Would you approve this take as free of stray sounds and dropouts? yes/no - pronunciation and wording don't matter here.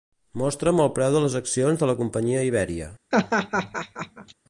no